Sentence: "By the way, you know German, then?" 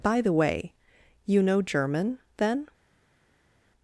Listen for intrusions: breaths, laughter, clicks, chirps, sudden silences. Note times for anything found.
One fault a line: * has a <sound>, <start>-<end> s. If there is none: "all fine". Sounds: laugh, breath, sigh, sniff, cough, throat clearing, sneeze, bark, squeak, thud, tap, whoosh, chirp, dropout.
all fine